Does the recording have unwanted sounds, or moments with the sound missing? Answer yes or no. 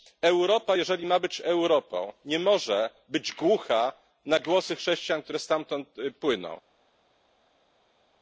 no